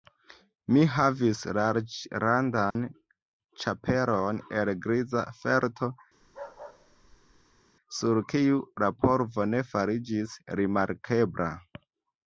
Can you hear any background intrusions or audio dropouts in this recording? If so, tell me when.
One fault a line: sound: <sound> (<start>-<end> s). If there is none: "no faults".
sound: dropout (2.7-2.8 s)
sound: bark (6.2-7.6 s)